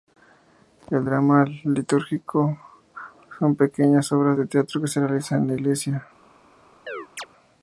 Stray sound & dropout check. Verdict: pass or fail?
fail